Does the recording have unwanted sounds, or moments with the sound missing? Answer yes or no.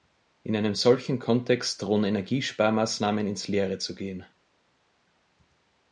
no